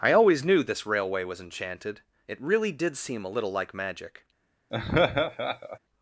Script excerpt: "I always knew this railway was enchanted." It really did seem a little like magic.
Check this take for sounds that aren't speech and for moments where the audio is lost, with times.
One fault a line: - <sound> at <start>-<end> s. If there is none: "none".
- laugh at 4.7-5.8 s